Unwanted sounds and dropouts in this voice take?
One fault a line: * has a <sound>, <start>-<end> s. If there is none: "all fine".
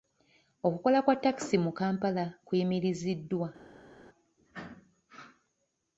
all fine